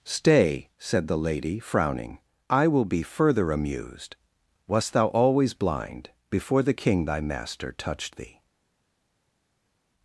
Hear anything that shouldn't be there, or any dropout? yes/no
no